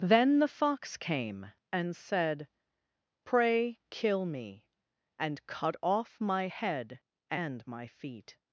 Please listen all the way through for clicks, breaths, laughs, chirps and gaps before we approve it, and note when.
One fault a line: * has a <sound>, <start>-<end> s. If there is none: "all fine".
all fine